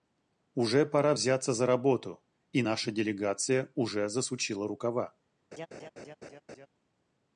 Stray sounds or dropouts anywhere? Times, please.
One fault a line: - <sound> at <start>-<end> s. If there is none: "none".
- laugh at 5.5-6.7 s